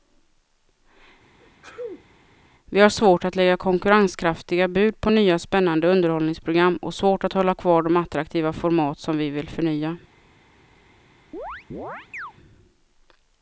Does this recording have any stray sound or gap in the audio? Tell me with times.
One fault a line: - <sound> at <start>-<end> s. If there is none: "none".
- sneeze at 1.4-2.1 s
- chirp at 11.3-12.3 s